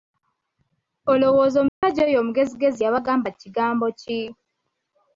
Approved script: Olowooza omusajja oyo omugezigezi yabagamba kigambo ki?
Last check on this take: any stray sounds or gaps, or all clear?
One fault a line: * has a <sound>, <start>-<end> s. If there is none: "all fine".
* has a dropout, 1.7-1.8 s